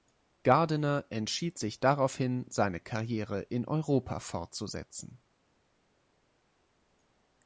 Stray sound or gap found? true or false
false